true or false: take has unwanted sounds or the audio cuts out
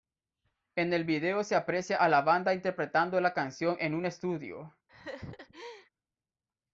true